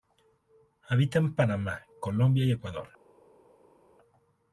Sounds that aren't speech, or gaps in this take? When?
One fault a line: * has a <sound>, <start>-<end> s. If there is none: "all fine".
all fine